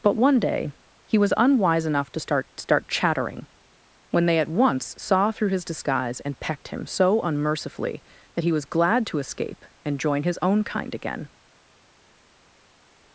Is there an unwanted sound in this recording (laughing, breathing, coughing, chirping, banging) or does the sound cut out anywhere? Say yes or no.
no